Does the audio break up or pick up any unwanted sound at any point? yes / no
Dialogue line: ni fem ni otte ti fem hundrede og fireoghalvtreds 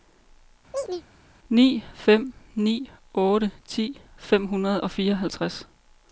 yes